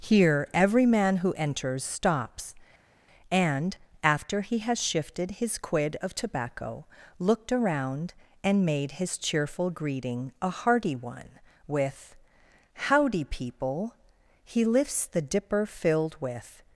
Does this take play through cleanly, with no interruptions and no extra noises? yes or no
yes